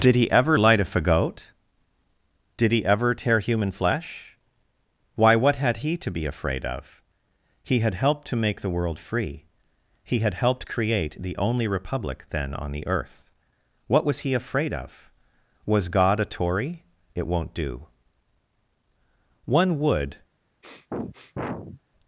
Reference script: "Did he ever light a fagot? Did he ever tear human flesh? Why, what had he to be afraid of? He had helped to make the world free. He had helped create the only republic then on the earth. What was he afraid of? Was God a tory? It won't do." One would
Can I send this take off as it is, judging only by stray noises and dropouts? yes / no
no